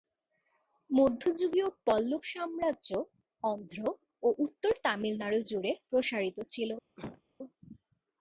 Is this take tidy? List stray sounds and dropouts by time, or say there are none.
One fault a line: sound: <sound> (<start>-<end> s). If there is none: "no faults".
sound: cough (7.0-7.2 s)